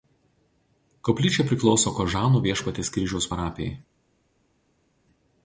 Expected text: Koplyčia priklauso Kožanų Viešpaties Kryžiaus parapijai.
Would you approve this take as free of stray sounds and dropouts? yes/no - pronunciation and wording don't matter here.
yes